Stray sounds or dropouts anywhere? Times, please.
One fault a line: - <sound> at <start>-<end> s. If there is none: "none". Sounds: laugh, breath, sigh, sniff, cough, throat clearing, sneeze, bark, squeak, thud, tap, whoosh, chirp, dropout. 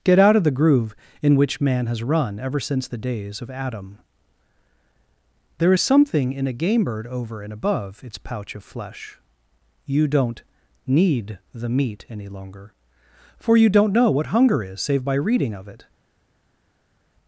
none